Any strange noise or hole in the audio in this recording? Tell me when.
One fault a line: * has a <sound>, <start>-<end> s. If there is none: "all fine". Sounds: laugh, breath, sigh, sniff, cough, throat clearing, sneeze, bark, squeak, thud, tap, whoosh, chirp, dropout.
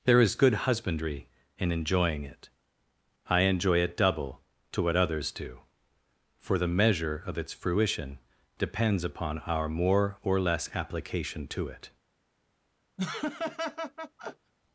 * has a laugh, 13.0-14.5 s